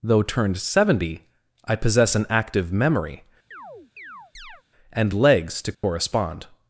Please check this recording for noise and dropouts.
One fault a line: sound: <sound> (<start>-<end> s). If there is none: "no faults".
sound: chirp (3.5-4.6 s)
sound: dropout (5.7-5.8 s)